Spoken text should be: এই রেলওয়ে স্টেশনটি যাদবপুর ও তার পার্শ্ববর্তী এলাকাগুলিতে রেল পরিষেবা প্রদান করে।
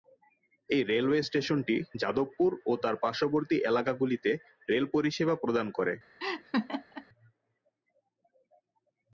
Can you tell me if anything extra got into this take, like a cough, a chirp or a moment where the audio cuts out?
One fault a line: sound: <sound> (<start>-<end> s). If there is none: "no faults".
sound: laugh (6.2-7.1 s)